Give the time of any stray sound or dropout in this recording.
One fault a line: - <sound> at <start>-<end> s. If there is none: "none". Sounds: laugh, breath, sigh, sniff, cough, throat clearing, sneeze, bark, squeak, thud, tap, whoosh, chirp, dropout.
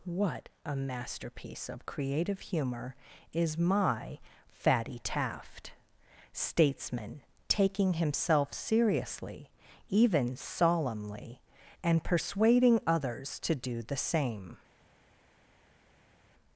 none